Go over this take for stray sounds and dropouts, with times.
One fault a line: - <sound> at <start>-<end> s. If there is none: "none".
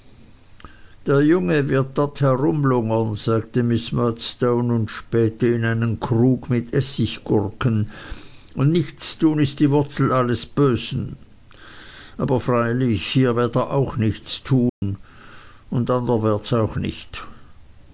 - dropout at 14.7-14.8 s